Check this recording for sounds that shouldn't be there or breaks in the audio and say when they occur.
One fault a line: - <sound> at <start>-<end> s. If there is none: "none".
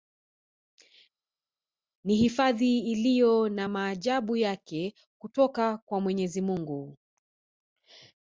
none